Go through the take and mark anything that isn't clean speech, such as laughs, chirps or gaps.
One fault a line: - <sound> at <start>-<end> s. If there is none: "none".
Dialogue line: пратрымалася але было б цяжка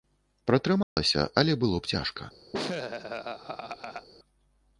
- dropout at 0.8-1.0 s
- laugh at 2.5-4.1 s